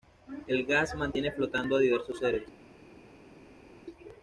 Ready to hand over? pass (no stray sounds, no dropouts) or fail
pass